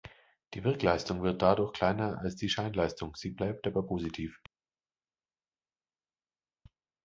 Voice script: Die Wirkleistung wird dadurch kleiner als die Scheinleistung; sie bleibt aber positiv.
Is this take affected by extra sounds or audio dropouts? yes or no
no